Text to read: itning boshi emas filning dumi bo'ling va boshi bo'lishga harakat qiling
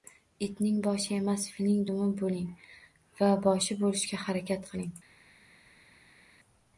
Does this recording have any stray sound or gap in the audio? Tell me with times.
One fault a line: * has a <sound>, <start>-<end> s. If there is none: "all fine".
all fine